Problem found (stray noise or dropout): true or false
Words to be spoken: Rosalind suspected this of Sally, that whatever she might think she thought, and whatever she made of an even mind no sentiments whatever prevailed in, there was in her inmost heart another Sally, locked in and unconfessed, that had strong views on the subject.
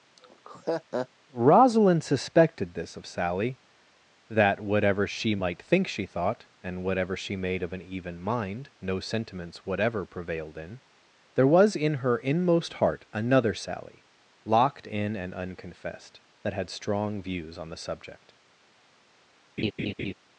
true